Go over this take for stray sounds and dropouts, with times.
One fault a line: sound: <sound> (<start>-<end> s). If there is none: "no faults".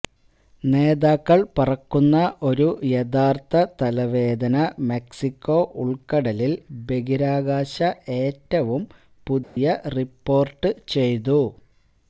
sound: dropout (9.4-9.6 s)